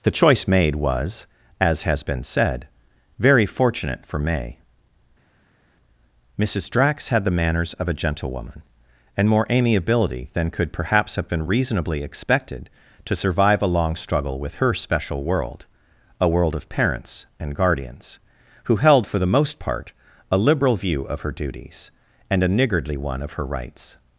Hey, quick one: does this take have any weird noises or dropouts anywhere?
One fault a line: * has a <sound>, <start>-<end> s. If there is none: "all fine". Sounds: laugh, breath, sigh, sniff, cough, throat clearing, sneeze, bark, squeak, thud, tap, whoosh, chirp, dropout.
all fine